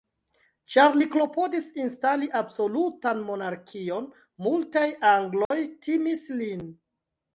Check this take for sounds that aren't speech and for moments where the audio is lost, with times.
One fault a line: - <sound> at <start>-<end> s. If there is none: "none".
- dropout at 5.4-5.5 s